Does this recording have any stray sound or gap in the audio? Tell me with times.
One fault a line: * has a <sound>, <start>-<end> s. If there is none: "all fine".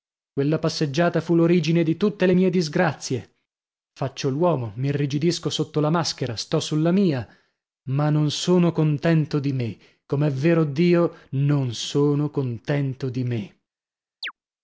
* has a chirp, 14.2-14.3 s